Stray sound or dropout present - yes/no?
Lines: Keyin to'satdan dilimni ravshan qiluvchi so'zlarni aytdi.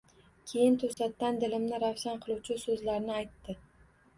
yes